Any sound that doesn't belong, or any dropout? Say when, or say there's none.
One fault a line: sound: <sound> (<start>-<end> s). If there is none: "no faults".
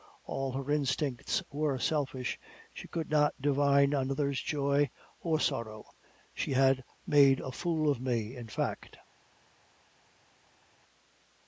no faults